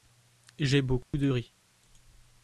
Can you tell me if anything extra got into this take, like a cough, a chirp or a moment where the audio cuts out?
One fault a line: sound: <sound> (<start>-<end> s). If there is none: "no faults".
sound: dropout (1.0-1.1 s)